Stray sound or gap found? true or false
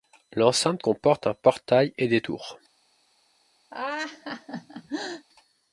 true